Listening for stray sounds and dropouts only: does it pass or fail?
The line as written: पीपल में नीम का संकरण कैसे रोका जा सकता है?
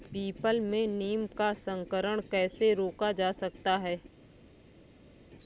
pass